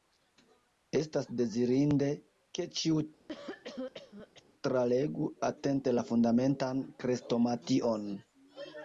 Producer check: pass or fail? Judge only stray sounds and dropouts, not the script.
fail